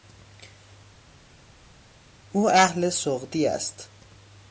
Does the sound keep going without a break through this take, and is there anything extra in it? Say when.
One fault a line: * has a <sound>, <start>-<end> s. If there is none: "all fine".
all fine